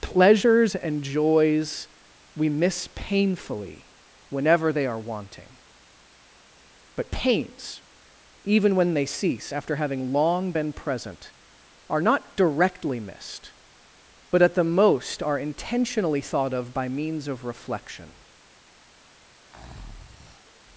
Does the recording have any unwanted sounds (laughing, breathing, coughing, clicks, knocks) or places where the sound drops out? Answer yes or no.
yes